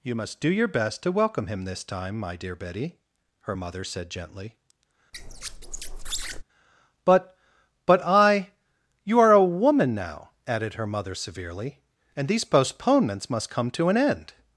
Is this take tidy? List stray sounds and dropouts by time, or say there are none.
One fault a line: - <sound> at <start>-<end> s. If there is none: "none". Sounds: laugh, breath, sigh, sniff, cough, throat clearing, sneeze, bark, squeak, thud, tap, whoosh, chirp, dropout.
- squeak at 5.1-6.4 s